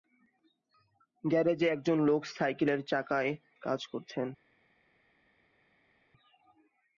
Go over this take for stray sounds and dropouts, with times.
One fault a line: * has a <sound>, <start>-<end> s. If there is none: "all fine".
all fine